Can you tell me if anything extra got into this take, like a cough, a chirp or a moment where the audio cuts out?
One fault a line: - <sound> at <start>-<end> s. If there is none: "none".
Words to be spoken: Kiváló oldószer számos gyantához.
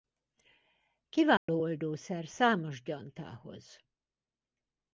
- dropout at 1.4-1.5 s